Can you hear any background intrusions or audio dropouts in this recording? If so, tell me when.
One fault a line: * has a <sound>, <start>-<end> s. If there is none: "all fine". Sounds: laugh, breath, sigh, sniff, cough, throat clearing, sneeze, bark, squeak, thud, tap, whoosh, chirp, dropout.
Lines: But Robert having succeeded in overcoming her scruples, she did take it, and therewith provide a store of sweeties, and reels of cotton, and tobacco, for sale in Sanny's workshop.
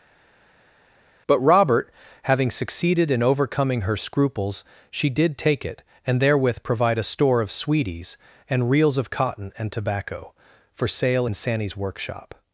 all fine